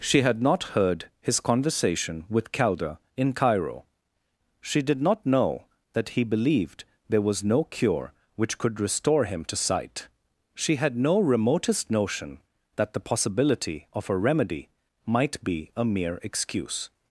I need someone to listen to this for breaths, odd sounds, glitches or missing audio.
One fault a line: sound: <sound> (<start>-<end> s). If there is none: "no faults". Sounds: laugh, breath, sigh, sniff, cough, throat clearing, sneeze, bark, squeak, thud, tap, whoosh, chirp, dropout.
no faults